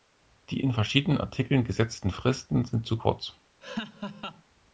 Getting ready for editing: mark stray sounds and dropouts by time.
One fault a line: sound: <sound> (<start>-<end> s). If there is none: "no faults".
sound: laugh (3.6-4.4 s)